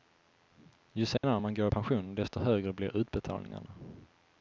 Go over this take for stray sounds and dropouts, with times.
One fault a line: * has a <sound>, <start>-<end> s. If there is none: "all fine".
* has a dropout, 1.2-1.2 s